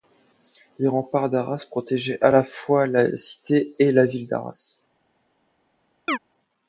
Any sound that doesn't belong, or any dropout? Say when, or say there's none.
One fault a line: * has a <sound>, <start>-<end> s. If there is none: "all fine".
* has a chirp, 6.1-6.2 s